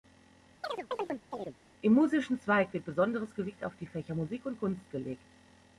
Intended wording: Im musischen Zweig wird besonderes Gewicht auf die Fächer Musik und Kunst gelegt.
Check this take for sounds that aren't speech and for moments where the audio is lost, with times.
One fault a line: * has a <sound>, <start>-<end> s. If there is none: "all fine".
* has a chirp, 0.6-1.6 s